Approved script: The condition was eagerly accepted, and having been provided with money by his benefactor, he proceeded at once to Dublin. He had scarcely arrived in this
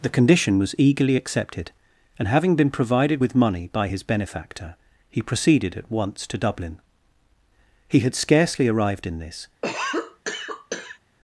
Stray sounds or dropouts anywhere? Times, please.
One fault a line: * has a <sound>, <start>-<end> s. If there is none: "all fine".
* has a cough, 9.6-11.0 s